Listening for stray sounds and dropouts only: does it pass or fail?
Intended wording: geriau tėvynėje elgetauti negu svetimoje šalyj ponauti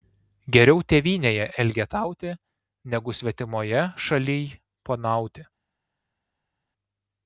pass